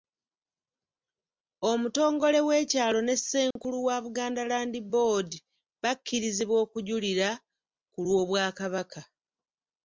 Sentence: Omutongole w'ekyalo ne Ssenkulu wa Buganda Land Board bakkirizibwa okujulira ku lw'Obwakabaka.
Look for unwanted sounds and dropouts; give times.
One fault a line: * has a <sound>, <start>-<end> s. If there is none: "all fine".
* has a dropout, 3.5-3.6 s